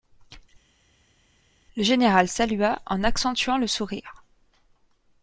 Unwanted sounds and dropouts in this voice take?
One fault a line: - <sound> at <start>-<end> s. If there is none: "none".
none